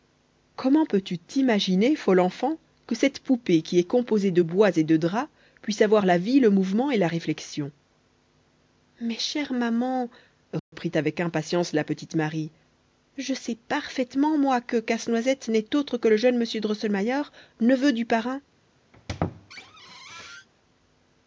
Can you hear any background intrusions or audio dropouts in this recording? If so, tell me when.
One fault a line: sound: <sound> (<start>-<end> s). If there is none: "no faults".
sound: dropout (10.6-10.7 s)
sound: squeak (18.9-20.5 s)